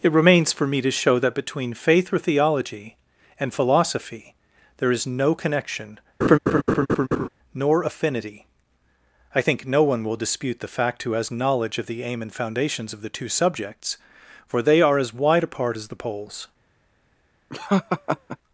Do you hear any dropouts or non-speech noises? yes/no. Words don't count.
yes